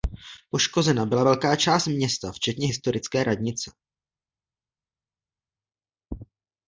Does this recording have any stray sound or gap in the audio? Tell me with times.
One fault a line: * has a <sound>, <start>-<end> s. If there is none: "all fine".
all fine